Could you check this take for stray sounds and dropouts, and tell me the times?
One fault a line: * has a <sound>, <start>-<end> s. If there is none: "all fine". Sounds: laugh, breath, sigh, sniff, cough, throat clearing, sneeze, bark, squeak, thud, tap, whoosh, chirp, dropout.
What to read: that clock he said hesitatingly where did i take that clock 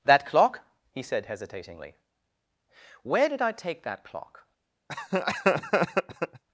* has a laugh, 4.9-6.4 s